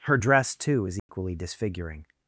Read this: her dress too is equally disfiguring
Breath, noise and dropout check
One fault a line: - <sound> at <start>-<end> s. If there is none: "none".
- dropout at 1.0-1.1 s